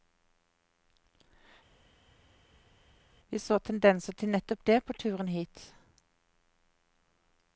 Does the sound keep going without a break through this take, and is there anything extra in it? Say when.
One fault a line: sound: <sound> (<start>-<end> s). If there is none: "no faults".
no faults